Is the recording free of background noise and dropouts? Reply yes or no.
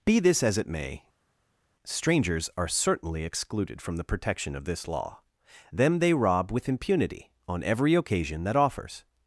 yes